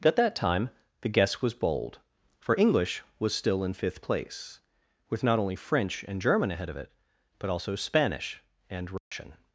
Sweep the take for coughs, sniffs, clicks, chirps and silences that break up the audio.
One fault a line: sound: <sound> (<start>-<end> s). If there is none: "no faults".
sound: dropout (9.0-9.1 s)